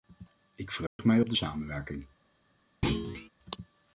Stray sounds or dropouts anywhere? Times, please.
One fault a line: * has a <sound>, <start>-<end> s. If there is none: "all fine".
* has a dropout, 0.9-1.0 s
* has a thud, 2.8-3.3 s